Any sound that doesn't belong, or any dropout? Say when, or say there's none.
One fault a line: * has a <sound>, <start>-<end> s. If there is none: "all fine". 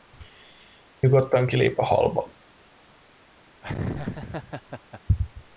* has a laugh, 3.6-5.0 s